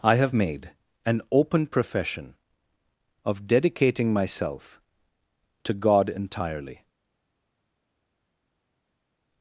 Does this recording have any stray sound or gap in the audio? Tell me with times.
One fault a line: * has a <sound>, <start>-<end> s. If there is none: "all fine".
all fine